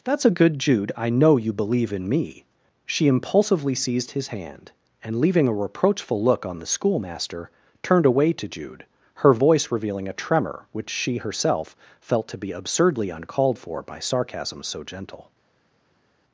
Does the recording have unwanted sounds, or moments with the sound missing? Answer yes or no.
no